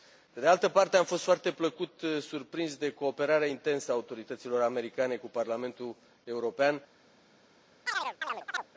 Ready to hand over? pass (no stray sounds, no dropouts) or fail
fail